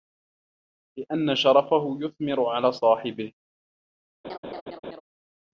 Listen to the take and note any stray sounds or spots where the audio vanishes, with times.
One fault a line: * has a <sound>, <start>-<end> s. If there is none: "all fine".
* has a laugh, 4.2-5.0 s